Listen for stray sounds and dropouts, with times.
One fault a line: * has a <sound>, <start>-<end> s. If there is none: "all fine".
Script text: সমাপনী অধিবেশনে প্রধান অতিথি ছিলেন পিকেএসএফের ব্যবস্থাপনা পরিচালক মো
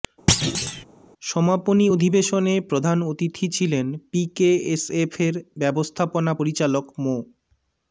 * has a thud, 0.3-0.8 s